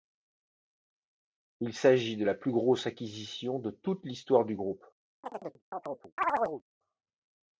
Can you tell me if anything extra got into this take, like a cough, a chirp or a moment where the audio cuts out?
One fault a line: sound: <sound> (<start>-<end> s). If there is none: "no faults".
sound: chirp (5.2-6.6 s)